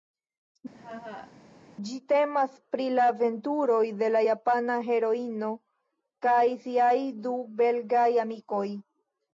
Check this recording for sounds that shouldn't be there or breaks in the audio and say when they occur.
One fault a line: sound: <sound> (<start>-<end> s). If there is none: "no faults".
sound: laugh (0.7-1.3 s)